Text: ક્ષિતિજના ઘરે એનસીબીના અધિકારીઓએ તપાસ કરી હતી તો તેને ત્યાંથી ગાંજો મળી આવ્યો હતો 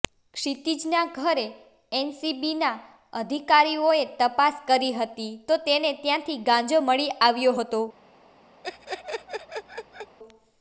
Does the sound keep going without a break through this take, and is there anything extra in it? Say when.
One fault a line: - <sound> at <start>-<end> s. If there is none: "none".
- laugh at 8.6-10.2 s